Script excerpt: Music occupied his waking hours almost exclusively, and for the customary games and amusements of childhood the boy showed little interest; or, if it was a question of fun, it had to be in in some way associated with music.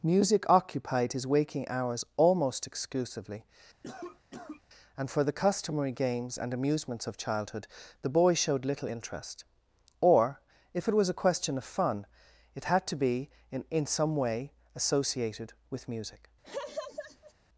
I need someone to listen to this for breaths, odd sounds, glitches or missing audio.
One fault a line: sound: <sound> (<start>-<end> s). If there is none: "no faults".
sound: cough (3.8-4.6 s)
sound: laugh (16.4-17.3 s)